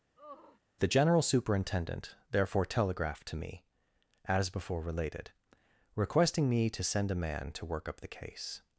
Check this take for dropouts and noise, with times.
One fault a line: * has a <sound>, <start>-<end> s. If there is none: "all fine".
* has a sigh, 0.2-0.6 s